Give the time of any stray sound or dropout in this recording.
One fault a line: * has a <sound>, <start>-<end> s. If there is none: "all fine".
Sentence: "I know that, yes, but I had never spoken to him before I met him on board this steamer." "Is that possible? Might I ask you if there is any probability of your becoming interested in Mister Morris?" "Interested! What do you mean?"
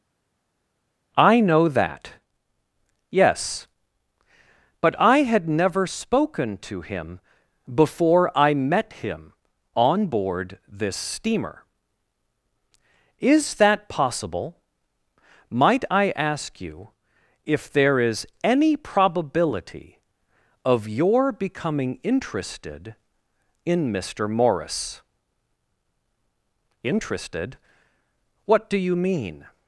all fine